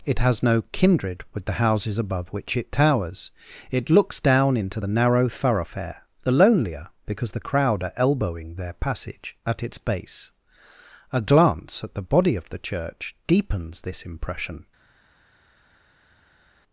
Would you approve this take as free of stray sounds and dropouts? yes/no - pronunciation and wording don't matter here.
yes